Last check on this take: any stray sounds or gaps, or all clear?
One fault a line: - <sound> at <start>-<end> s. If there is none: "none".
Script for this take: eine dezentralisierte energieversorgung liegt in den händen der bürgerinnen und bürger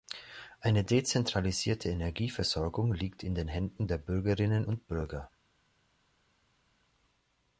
none